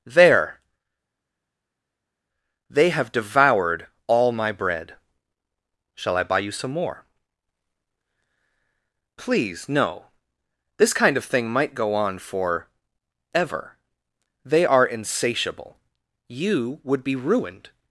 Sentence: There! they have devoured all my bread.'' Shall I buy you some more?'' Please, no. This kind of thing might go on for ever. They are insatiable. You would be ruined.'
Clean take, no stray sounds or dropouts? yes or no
yes